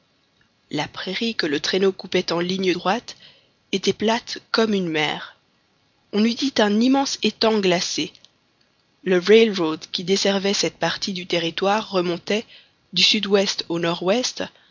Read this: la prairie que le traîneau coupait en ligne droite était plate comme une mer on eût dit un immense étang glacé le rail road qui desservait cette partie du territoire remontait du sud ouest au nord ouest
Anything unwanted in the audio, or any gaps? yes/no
no